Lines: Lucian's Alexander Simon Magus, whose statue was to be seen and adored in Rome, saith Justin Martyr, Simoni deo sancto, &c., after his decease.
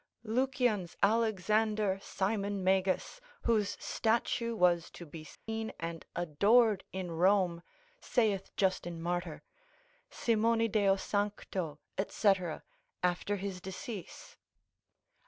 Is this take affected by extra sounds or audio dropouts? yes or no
yes